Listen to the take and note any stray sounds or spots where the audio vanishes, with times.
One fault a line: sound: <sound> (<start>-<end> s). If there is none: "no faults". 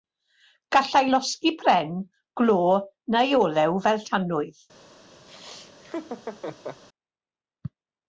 sound: laugh (5.3-6.8 s)